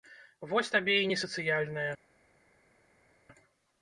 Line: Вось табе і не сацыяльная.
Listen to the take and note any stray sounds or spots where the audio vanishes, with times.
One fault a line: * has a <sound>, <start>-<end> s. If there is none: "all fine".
all fine